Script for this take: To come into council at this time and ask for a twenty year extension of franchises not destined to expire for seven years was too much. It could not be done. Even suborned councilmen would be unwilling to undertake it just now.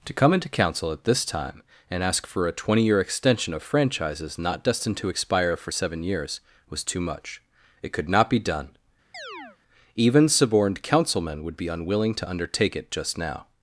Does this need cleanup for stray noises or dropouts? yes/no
yes